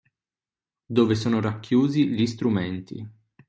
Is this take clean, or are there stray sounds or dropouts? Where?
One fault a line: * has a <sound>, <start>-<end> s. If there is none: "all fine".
all fine